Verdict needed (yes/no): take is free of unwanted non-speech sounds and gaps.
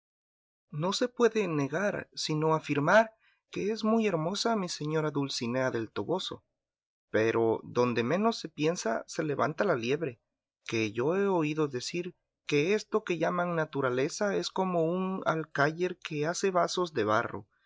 yes